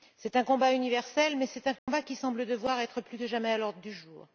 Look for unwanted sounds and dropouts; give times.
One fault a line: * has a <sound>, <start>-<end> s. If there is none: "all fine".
* has a dropout, 1.8-1.9 s